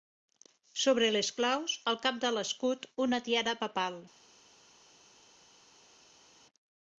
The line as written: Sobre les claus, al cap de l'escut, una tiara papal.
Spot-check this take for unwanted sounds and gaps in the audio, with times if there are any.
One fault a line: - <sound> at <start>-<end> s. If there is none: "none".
none